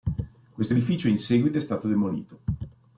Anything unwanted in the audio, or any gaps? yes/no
no